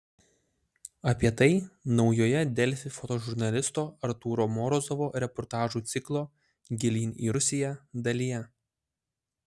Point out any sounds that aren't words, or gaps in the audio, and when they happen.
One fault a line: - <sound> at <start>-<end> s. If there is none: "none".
none